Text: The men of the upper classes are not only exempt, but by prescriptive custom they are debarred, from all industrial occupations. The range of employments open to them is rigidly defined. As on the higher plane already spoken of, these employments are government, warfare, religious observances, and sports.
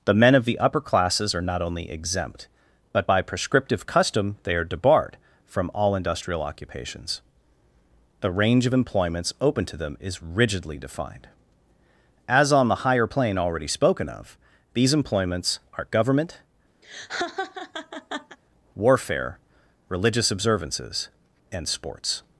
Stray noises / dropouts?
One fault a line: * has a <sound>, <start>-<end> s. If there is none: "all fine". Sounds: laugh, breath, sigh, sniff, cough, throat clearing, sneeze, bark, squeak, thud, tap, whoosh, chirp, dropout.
* has a laugh, 16.8-18.4 s